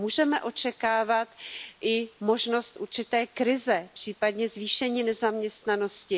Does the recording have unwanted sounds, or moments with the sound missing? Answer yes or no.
no